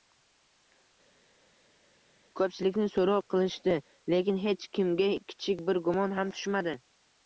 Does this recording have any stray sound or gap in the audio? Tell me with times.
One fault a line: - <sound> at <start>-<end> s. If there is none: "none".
none